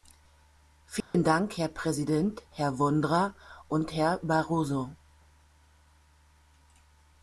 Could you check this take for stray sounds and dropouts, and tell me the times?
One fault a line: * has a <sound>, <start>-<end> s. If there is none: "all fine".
* has a dropout, 1.0-1.1 s